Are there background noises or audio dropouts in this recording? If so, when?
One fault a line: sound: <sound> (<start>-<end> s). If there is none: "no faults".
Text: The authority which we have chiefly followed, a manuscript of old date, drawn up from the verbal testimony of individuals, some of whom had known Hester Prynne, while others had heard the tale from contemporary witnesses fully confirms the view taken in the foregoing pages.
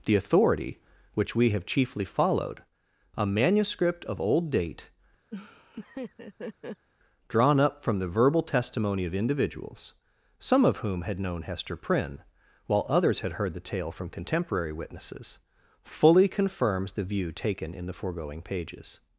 sound: laugh (5.3-6.9 s)